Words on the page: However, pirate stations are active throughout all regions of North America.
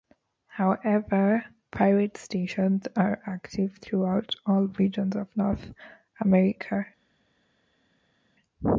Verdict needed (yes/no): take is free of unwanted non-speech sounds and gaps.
yes